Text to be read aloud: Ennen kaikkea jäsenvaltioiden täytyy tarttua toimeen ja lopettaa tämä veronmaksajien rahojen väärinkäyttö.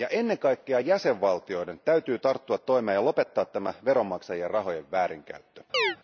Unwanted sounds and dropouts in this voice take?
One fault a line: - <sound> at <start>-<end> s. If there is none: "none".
- chirp at 5.7-6.0 s